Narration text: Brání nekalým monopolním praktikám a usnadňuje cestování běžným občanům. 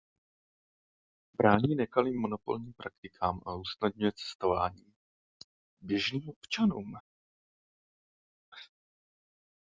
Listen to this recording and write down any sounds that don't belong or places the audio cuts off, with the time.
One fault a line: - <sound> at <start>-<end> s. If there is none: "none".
none